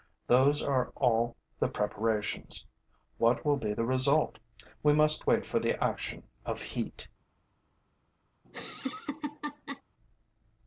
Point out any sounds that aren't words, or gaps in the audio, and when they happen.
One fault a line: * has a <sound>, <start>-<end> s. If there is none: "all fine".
* has a laugh, 8.4-9.8 s